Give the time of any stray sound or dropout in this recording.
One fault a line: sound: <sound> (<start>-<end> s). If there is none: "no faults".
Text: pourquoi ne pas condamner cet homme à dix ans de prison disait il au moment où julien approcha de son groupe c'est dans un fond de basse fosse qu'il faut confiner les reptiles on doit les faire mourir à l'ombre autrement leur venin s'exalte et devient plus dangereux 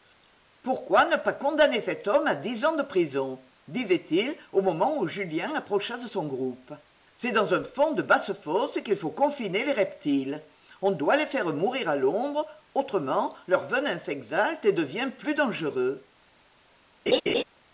sound: laugh (17.1-17.4 s)